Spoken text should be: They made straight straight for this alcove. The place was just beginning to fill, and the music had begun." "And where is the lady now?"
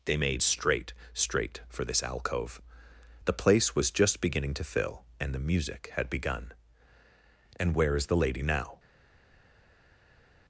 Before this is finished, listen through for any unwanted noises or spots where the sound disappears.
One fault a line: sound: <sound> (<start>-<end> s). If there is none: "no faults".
no faults